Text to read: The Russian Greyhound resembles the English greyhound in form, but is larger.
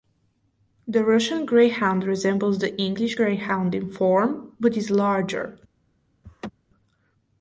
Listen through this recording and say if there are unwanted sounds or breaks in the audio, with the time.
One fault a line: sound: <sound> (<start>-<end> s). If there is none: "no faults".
sound: laugh (6.2-6.5 s)